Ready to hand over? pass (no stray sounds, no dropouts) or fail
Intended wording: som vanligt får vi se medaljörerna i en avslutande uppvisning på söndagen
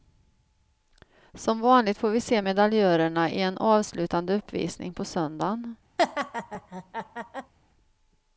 fail